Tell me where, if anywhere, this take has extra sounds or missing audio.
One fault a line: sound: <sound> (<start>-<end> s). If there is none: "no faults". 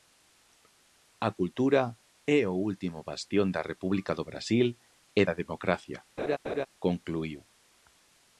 sound: laugh (6.2-6.7 s)